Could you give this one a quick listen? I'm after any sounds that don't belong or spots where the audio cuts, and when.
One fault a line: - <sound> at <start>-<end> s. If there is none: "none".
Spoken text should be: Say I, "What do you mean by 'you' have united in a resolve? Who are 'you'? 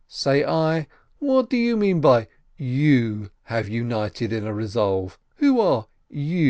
none